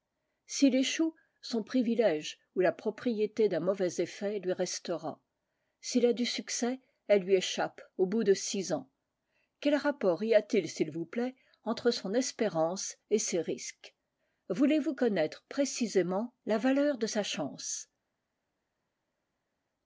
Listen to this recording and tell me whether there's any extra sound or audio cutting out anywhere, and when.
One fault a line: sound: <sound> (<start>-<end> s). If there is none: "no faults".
no faults